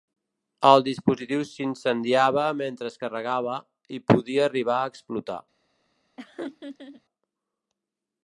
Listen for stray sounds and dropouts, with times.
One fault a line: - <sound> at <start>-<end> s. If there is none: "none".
- laugh at 6.2-7.0 s